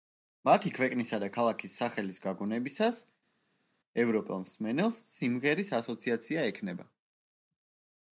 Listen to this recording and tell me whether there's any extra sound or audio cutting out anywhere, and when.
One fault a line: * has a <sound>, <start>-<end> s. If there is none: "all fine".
all fine